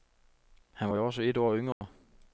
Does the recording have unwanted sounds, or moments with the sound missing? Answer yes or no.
yes